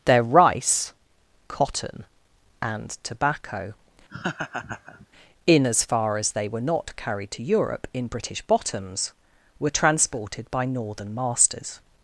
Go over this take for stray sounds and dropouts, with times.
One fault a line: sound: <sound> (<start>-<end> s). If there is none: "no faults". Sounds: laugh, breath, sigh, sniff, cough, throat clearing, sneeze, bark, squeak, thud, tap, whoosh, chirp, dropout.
sound: laugh (4.1-5.1 s)